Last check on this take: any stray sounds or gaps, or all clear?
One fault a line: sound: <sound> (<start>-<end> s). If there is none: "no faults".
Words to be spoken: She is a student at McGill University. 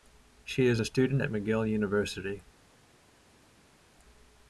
no faults